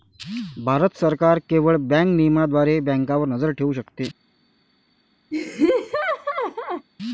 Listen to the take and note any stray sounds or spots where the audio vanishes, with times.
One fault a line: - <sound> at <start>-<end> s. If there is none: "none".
- laugh at 5.3-6.9 s